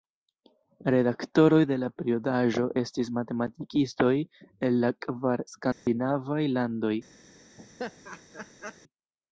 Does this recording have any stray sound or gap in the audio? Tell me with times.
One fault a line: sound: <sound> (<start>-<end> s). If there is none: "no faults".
sound: dropout (5.7-5.9 s)
sound: laugh (7.6-8.8 s)